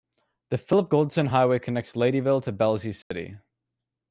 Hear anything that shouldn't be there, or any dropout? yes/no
yes